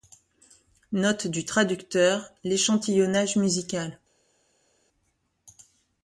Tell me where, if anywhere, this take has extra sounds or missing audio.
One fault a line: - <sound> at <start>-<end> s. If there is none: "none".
none